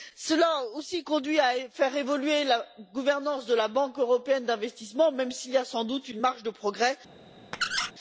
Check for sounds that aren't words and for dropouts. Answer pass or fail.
fail